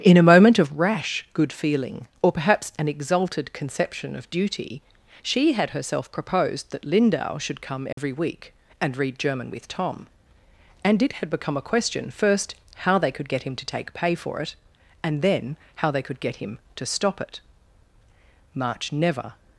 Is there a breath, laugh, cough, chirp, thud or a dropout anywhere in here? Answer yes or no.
yes